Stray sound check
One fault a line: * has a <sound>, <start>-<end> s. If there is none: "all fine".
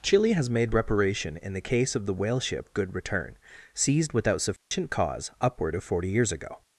* has a dropout, 4.6-4.7 s